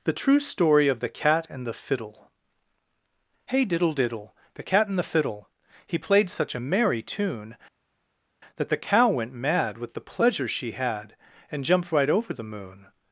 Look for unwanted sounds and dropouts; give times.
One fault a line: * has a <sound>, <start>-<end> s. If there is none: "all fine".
all fine